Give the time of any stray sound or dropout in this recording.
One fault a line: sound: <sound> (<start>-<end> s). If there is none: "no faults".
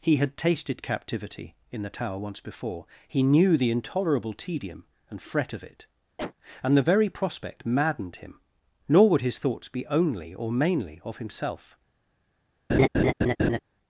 sound: cough (6.2-6.3 s)
sound: laugh (12.7-13.6 s)